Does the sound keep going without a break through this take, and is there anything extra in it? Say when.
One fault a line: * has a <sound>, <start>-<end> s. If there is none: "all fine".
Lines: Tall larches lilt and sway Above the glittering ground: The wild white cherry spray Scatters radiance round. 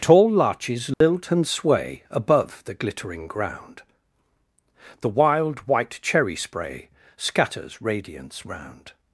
* has a dropout, 0.9-1.0 s